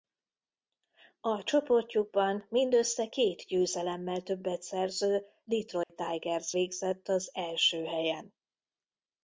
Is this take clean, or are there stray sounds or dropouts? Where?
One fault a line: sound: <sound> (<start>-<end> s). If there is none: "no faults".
sound: dropout (5.8-5.9 s)